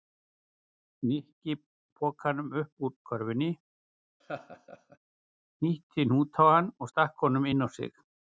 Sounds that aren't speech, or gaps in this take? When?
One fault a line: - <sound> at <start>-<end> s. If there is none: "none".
- laugh at 4.2-5.0 s